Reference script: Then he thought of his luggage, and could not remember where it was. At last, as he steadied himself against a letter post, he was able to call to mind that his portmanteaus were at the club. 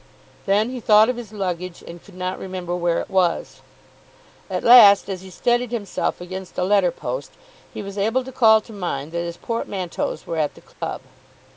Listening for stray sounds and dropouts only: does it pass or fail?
fail